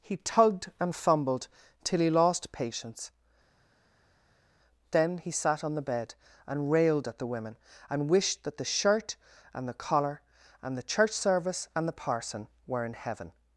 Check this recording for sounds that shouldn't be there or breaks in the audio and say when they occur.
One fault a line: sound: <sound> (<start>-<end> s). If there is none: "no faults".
no faults